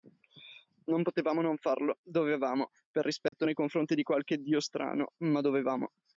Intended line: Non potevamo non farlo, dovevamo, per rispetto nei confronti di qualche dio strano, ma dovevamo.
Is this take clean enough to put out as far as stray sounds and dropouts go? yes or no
no